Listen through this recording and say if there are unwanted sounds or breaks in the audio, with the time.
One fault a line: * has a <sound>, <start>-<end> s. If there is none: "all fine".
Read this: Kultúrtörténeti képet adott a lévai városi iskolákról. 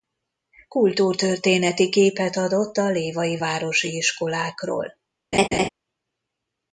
* has a laugh, 5.3-5.7 s